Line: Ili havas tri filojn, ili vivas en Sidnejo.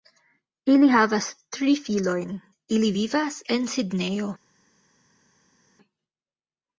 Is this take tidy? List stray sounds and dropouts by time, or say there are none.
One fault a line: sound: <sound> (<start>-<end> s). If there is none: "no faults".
no faults